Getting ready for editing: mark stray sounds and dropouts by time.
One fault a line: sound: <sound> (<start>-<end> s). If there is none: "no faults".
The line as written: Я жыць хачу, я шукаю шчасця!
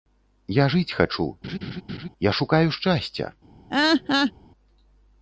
sound: laugh (1.4-2.1 s)
sound: laugh (3.7-4.3 s)